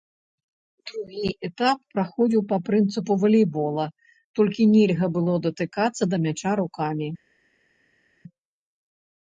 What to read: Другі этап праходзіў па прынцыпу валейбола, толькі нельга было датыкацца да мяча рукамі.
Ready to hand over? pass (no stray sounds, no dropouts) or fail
pass